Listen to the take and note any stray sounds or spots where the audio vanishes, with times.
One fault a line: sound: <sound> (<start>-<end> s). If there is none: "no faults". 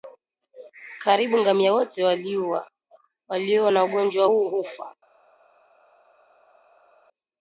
no faults